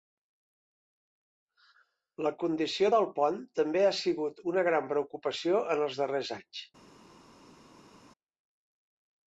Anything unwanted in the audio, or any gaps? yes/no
no